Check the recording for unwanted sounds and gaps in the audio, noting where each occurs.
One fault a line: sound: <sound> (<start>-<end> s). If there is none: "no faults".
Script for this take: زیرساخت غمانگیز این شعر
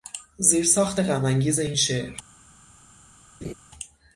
sound: laugh (3.4-3.5 s)